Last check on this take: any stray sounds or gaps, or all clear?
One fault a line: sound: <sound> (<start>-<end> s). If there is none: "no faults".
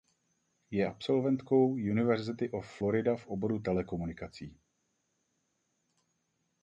no faults